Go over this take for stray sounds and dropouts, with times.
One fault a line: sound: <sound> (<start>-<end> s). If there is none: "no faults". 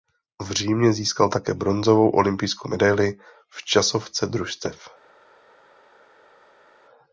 no faults